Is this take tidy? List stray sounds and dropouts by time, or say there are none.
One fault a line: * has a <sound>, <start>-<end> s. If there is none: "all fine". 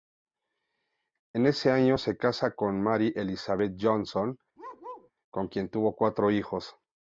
* has a bark, 4.6-5.1 s